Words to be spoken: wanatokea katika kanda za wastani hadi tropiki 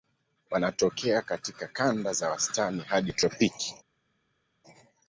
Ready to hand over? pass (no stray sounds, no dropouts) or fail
pass